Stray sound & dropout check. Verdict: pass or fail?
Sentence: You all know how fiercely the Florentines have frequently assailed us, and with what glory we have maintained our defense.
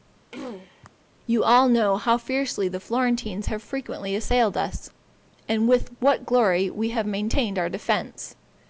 fail